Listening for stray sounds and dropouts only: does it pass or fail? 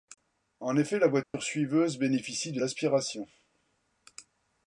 fail